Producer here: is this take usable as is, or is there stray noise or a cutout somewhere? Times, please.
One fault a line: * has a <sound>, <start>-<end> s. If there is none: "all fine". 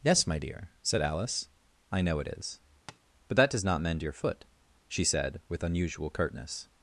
* has a tap, 2.9-3.0 s